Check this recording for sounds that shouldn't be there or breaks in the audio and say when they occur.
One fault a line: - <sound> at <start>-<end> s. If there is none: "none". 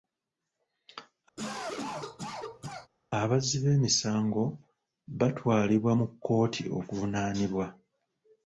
- cough at 1.4-2.9 s